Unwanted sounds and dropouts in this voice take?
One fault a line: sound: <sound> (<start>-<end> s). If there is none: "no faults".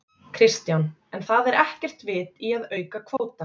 sound: dropout (3.2-3.2 s)